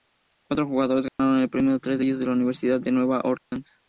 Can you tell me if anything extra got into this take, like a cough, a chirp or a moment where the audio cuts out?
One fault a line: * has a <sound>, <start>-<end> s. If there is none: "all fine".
* has a dropout, 1.1-1.2 s
* has a dropout, 3.4-3.5 s